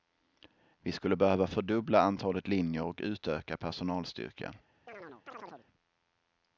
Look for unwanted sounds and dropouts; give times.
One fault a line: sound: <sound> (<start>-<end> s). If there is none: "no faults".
sound: chirp (4.9-5.7 s)